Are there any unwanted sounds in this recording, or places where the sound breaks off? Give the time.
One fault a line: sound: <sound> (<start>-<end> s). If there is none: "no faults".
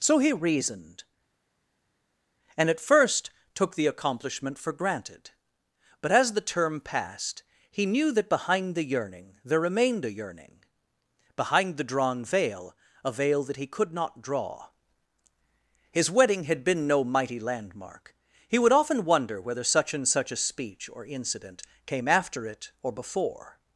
no faults